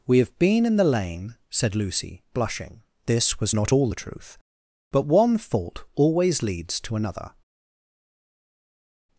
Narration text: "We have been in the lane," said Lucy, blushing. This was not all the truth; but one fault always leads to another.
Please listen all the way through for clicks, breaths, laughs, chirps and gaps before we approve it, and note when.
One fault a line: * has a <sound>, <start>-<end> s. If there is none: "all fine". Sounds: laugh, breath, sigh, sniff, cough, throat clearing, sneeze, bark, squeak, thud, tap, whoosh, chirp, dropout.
all fine